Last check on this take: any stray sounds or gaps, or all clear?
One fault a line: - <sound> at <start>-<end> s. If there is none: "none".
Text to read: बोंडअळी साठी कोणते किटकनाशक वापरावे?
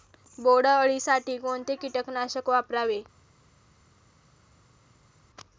none